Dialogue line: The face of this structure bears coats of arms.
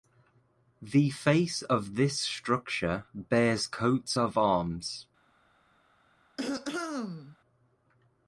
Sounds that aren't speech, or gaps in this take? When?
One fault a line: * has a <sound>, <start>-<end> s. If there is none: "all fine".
* has a throat clearing, 6.4-7.4 s